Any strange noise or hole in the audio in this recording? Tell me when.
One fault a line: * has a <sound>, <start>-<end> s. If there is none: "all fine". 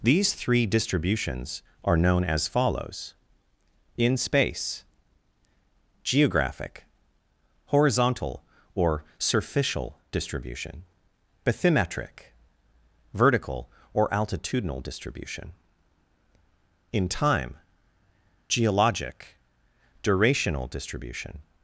all fine